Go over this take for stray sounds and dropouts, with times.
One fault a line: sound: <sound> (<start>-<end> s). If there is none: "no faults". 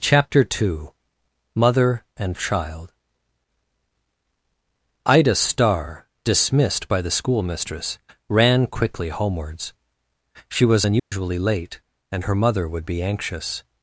sound: dropout (11.0-11.1 s)